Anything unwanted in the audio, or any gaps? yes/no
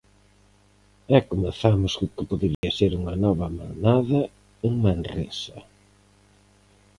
yes